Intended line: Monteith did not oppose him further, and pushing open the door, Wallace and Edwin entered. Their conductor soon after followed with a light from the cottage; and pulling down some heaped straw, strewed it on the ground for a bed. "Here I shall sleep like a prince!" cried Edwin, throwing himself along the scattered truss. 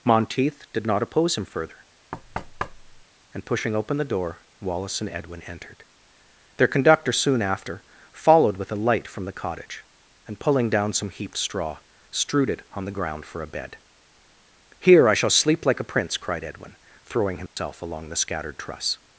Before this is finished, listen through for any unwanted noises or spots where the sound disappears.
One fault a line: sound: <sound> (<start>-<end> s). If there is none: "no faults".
sound: thud (2.1-3.0 s)
sound: dropout (17.5-17.6 s)